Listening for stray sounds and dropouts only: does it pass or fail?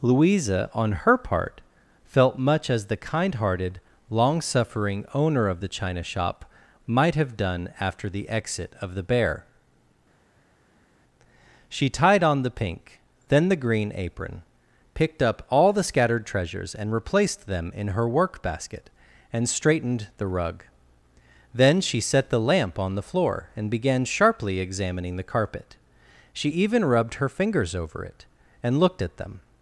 pass